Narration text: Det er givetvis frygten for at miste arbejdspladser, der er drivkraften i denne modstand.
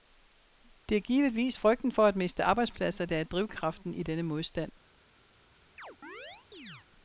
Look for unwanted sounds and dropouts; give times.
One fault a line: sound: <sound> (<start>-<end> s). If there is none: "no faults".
sound: chirp (5.8-6.9 s)